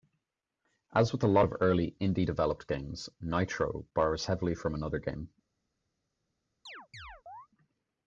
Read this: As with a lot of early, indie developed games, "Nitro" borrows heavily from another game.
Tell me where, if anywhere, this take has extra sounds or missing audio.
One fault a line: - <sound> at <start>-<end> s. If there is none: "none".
- chirp at 6.7-7.5 s